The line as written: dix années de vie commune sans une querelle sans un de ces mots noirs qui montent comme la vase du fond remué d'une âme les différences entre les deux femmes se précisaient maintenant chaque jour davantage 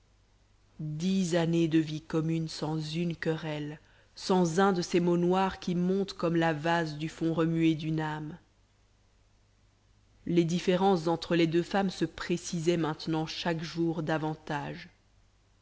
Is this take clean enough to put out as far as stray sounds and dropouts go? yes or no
yes